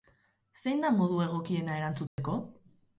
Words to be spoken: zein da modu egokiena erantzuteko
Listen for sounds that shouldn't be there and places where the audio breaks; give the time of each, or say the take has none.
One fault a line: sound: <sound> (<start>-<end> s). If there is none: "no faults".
sound: dropout (2.1-2.2 s)